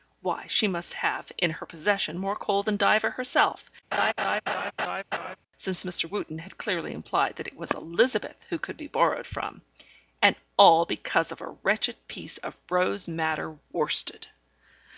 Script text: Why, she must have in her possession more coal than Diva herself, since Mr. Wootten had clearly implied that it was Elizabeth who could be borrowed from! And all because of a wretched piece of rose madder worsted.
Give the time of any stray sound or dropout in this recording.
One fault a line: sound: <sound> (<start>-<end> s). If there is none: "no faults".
sound: laugh (3.9-5.4 s)